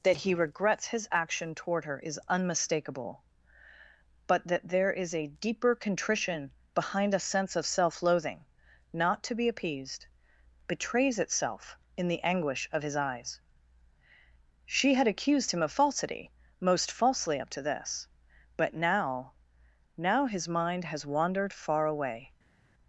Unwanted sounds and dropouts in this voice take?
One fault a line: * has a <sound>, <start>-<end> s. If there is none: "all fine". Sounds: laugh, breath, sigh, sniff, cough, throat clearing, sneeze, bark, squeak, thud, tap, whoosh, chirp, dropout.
all fine